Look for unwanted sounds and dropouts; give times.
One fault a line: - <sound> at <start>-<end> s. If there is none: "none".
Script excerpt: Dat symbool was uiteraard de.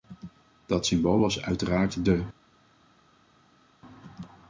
none